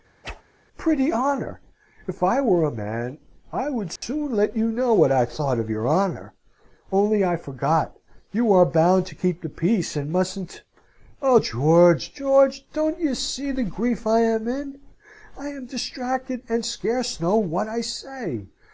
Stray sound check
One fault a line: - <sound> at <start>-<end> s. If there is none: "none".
- whoosh at 0.2-0.4 s
- dropout at 4.0-4.0 s